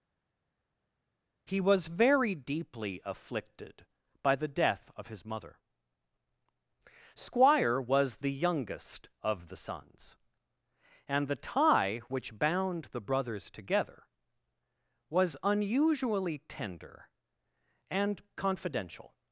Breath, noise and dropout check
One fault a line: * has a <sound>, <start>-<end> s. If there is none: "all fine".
all fine